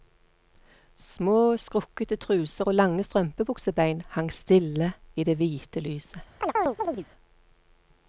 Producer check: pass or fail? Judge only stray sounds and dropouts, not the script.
fail